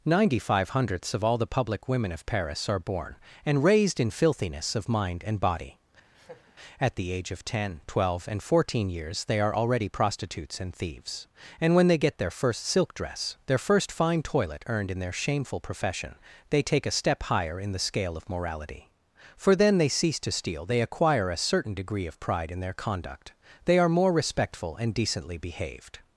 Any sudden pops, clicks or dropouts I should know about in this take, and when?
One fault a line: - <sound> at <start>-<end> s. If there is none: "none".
- laugh at 6.1-6.5 s